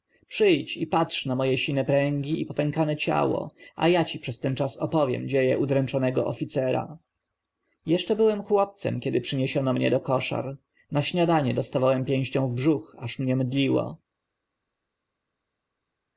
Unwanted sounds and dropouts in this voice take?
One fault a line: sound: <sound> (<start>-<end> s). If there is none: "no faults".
no faults